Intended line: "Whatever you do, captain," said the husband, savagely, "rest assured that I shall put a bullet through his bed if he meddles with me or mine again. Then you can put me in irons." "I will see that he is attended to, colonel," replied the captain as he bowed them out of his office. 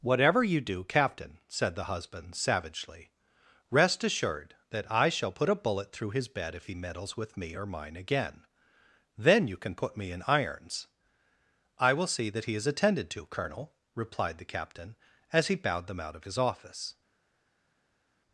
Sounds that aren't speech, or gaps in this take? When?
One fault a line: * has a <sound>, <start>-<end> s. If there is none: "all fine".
all fine